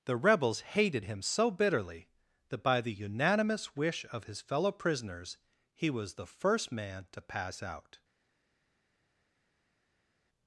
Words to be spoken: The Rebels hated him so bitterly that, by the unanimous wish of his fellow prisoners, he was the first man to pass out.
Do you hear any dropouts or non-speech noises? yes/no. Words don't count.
no